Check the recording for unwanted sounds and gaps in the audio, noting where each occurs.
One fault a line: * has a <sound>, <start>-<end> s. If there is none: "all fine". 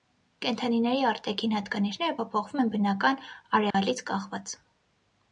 * has a dropout, 3.7-3.7 s